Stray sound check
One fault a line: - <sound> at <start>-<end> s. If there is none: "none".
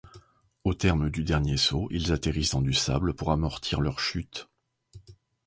none